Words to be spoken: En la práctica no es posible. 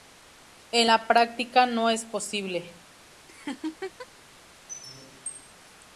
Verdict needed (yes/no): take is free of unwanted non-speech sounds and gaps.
no